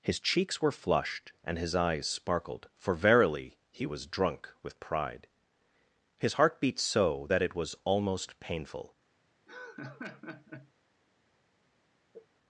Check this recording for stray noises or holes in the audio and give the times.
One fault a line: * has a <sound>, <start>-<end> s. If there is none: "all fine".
* has a laugh, 9.5-10.7 s
* has a sneeze, 12.1-12.3 s